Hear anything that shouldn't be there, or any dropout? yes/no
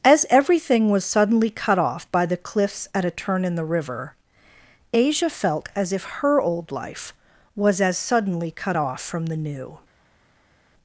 no